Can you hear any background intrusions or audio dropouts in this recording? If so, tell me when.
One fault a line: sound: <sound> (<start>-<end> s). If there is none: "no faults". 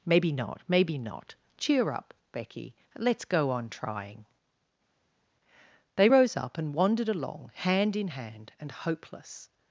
no faults